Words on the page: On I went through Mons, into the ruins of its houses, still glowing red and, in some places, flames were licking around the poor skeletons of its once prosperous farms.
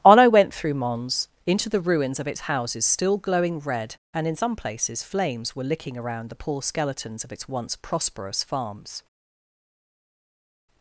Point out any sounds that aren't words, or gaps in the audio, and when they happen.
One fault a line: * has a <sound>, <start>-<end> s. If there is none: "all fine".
all fine